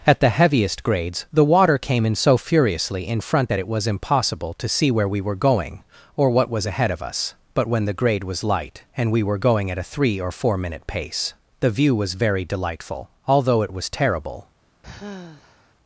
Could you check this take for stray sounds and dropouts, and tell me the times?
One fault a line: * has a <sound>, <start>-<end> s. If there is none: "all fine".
* has a sigh, 14.8-15.8 s